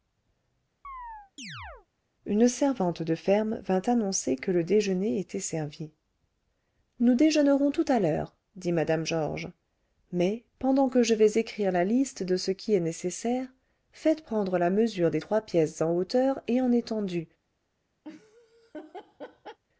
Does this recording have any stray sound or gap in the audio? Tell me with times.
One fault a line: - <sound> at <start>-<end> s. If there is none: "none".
- chirp at 0.8-1.9 s
- laugh at 18.0-19.6 s